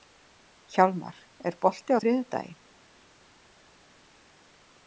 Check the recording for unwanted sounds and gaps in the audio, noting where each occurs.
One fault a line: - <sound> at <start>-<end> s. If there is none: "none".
none